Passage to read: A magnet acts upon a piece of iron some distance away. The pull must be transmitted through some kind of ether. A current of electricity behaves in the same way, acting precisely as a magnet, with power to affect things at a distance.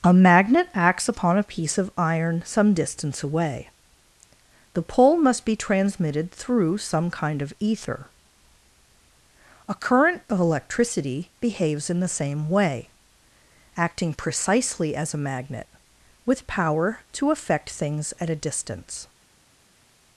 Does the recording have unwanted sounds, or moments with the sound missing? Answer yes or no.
no